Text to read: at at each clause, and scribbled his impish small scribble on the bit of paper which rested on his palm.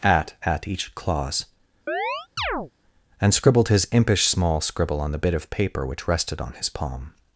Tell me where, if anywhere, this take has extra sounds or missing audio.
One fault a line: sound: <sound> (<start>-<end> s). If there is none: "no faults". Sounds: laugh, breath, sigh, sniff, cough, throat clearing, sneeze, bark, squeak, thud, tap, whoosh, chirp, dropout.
sound: chirp (1.9-2.7 s)